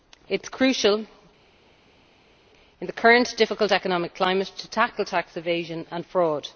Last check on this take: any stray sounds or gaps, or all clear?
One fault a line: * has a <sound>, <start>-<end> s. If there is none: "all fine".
all fine